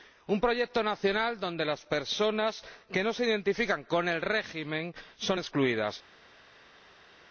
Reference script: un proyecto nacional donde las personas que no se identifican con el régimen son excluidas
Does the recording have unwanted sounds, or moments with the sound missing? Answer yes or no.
no